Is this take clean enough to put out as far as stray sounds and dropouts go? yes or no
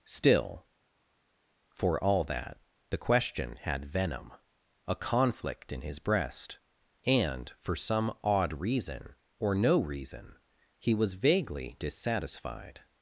yes